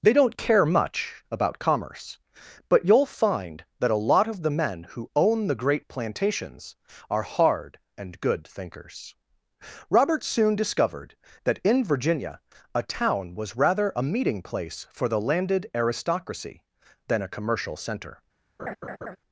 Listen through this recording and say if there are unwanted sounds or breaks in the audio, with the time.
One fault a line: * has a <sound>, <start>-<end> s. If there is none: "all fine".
* has a laugh, 18.6-19.2 s